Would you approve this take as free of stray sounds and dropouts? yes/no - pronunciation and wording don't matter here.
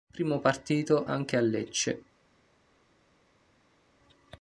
yes